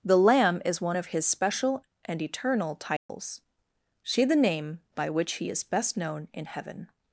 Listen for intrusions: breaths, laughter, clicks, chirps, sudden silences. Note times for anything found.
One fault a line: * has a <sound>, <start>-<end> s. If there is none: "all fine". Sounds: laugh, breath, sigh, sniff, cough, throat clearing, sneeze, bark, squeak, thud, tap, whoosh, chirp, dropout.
* has a dropout, 3.0-3.1 s